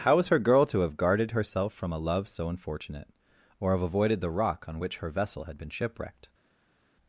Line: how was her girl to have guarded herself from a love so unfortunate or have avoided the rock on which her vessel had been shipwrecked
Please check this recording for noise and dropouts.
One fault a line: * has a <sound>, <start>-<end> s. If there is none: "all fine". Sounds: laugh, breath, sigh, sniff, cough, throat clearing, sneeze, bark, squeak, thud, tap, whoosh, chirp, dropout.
all fine